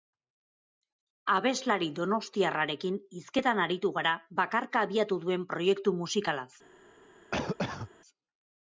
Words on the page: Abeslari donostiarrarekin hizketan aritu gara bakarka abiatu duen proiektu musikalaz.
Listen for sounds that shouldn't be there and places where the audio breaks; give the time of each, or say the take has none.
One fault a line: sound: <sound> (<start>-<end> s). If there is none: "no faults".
sound: cough (7.3-7.9 s)